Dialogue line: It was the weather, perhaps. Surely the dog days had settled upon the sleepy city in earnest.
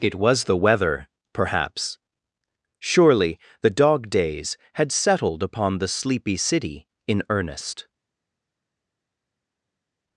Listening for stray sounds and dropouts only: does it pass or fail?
pass